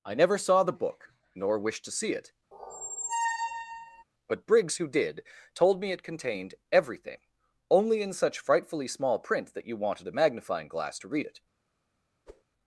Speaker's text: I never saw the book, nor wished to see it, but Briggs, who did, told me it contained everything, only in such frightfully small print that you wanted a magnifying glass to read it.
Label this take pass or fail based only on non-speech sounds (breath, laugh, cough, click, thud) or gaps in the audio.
fail